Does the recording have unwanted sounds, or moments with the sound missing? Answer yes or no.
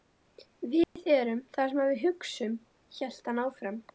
yes